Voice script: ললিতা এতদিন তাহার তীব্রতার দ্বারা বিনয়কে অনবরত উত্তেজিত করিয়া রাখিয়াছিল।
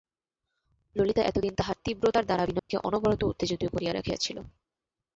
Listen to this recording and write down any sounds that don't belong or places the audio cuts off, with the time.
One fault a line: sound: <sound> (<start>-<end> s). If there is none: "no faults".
sound: dropout (2.6-2.7 s)